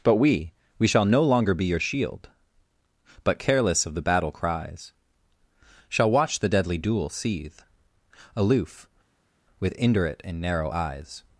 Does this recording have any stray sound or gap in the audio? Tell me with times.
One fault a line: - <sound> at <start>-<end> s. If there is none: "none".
none